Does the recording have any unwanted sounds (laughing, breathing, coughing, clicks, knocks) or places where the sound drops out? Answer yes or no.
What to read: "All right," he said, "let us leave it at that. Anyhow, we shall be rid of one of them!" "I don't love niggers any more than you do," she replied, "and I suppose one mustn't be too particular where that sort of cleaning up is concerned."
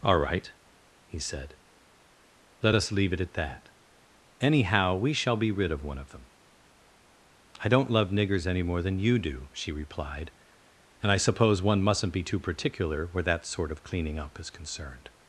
no